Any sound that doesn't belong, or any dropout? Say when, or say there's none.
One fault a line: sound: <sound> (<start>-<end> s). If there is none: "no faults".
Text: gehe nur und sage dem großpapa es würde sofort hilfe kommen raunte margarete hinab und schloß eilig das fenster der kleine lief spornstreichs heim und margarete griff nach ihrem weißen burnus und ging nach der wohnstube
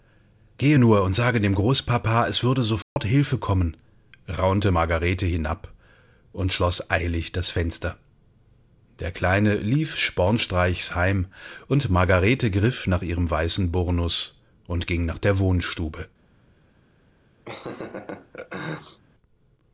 sound: dropout (2.8-3.0 s)
sound: laugh (17.5-19.0 s)